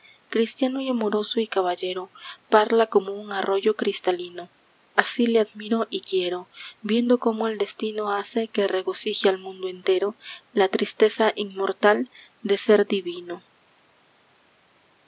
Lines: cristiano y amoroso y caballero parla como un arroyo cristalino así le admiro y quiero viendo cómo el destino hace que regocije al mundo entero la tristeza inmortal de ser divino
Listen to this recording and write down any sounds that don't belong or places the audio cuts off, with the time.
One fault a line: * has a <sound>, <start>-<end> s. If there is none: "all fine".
all fine